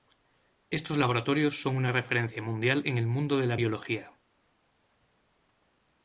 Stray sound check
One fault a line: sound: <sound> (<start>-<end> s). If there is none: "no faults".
no faults